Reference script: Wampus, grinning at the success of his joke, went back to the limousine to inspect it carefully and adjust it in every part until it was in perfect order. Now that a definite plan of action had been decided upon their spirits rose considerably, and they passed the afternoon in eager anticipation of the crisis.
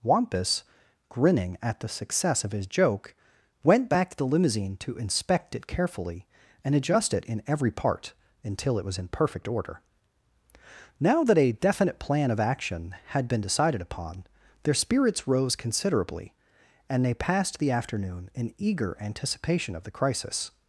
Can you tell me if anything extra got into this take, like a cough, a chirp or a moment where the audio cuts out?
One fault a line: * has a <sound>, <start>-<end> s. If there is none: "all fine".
all fine